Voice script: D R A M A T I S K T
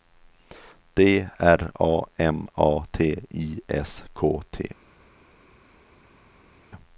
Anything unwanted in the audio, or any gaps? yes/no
no